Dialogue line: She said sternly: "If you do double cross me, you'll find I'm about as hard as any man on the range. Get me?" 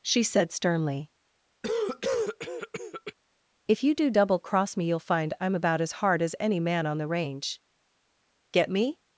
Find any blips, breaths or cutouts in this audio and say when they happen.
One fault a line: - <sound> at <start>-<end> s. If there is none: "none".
- cough at 1.6-3.1 s